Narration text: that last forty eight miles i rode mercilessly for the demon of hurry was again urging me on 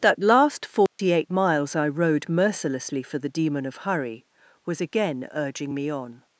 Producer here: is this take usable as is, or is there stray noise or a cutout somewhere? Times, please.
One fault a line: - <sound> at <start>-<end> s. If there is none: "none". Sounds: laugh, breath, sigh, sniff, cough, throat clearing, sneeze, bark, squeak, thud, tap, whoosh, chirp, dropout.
- dropout at 0.9-1.0 s